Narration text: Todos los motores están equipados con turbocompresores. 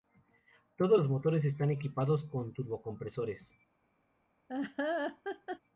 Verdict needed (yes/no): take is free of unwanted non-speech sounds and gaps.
no